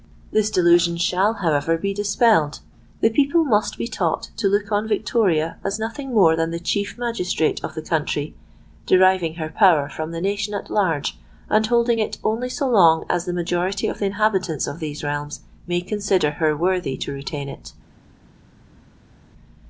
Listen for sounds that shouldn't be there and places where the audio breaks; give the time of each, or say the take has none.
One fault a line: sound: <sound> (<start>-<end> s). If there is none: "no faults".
no faults